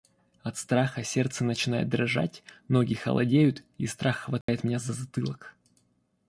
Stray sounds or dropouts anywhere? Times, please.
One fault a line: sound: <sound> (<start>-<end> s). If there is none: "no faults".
sound: dropout (4.4-4.5 s)